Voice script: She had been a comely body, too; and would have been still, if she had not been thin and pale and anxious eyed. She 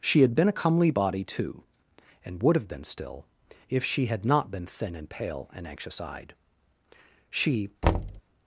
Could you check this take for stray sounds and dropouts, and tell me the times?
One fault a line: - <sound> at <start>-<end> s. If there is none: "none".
- thud at 7.8-8.2 s